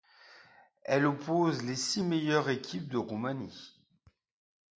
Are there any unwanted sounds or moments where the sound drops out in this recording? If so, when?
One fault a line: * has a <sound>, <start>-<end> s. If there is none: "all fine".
all fine